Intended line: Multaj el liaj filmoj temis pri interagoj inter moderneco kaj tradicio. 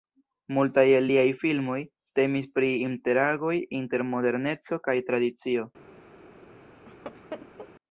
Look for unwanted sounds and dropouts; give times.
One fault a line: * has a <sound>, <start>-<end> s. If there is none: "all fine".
* has a laugh, 6.9-7.7 s